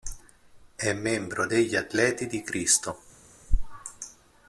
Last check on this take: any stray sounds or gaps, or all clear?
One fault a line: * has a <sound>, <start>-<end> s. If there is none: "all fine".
all fine